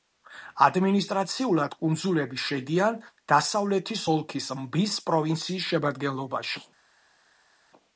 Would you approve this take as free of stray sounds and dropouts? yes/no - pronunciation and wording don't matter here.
yes